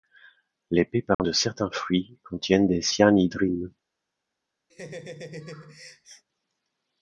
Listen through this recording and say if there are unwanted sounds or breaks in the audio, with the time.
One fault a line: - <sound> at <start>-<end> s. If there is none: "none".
- dropout at 1.1-1.2 s
- laugh at 4.7-6.2 s